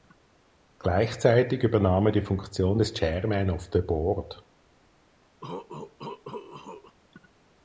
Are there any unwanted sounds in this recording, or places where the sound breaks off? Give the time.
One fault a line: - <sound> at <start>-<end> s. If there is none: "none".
- cough at 5.4-7.0 s